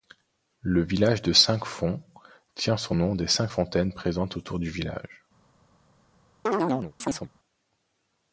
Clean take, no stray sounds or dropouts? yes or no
no